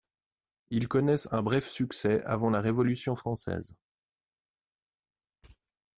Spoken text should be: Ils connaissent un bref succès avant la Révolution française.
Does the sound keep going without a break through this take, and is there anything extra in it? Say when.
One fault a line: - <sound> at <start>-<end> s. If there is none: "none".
none